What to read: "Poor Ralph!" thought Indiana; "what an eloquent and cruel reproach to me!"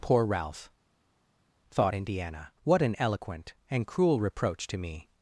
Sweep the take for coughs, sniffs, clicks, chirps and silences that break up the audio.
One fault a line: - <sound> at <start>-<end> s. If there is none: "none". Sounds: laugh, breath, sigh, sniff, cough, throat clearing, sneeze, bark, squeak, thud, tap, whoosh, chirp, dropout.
none